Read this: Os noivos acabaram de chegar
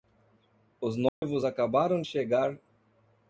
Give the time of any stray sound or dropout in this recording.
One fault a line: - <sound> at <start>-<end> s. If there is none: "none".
- dropout at 1.1-1.2 s